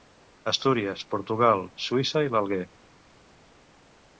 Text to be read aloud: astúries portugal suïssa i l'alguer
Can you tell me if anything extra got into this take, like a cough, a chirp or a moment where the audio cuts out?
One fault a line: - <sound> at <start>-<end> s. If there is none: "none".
none